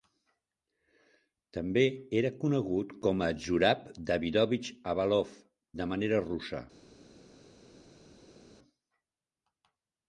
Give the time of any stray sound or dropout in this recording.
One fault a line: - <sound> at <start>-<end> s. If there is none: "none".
none